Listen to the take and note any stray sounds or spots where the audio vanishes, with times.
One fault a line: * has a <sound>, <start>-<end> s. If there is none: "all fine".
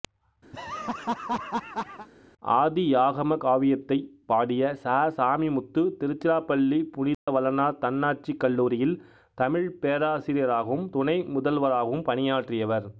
* has a laugh, 0.5-2.1 s
* has a dropout, 7.1-7.3 s